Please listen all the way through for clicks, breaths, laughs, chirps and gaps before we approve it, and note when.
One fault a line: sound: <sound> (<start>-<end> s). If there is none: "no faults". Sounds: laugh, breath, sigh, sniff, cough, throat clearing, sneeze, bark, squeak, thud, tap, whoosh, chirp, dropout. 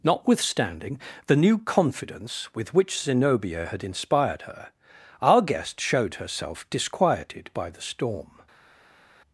no faults